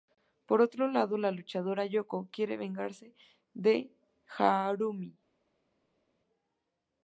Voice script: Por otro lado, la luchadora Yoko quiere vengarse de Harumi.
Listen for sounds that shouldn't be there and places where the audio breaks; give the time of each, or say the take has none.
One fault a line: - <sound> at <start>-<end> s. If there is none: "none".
none